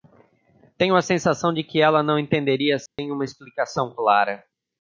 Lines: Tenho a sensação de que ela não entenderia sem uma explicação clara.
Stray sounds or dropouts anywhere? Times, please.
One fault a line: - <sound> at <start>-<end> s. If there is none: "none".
- dropout at 2.9-3.0 s